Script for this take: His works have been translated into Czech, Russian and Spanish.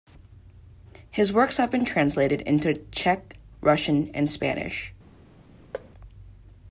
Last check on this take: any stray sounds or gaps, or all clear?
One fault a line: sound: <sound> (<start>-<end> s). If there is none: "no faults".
sound: thud (5.7-5.9 s)